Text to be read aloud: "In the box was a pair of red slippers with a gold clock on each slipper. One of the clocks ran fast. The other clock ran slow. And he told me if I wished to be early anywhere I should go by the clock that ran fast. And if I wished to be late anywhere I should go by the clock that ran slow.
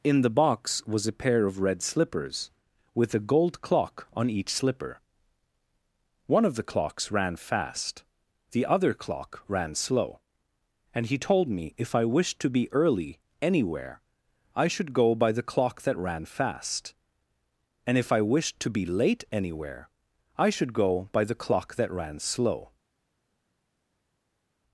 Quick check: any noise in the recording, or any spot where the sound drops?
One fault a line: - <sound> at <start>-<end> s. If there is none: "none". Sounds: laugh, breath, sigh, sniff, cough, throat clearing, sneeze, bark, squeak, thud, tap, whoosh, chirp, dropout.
none